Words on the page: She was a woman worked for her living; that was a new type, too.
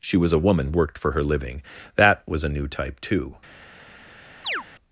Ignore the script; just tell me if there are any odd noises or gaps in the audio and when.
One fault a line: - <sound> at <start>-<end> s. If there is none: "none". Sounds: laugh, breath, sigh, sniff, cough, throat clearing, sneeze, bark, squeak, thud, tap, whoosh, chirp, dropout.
- chirp at 4.4-4.6 s